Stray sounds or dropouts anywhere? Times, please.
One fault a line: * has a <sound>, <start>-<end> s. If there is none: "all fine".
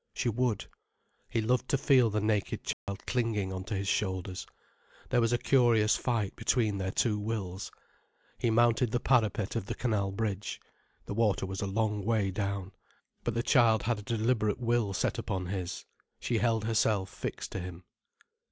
* has a dropout, 2.7-2.9 s